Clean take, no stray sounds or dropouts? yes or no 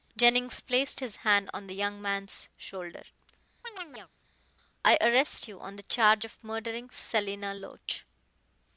no